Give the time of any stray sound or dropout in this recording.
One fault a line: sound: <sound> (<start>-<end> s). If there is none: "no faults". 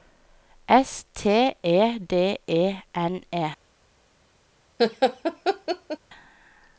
sound: laugh (4.8-6.0 s)